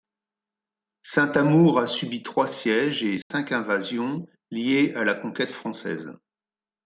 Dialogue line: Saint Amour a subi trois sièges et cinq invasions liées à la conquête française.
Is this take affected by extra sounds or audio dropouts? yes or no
yes